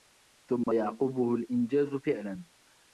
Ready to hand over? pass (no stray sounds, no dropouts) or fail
fail